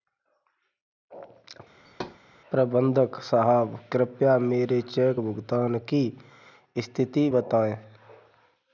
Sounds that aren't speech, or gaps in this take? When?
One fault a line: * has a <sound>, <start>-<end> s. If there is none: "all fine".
* has a thud, 1.8-2.2 s